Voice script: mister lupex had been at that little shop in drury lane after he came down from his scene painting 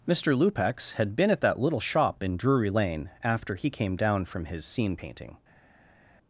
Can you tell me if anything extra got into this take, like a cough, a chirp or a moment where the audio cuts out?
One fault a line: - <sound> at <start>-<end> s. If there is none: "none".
none